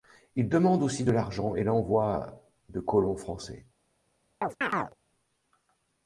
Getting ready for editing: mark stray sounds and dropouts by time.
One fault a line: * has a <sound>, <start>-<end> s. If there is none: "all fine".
* has a chirp, 4.4-5.0 s